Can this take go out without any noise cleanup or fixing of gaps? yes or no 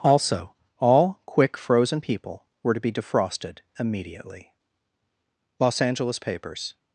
yes